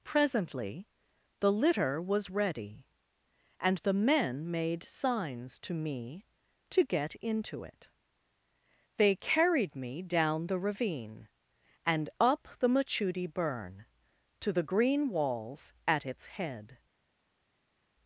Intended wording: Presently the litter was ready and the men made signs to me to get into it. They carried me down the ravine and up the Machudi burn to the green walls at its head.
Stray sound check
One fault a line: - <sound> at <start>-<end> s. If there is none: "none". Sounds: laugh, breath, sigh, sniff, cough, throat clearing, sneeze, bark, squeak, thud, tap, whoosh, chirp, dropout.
none